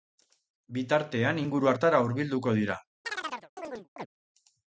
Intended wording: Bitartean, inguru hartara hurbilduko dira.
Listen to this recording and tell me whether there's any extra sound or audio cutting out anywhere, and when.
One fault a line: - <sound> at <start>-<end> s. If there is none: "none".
- chirp at 3.0-4.1 s